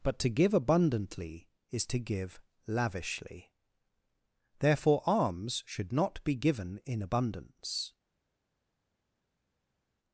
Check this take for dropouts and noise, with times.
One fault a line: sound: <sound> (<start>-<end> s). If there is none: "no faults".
no faults